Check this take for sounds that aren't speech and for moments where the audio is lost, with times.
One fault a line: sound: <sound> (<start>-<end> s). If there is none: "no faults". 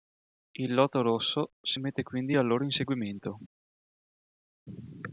no faults